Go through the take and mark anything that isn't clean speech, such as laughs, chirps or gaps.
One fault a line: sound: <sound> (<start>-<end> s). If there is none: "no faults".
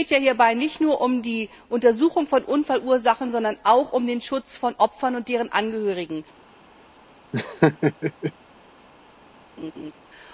sound: laugh (7.3-8.3 s)
sound: laugh (9.6-9.9 s)